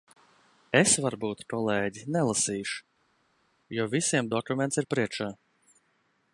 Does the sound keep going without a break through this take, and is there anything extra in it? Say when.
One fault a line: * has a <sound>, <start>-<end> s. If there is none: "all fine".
all fine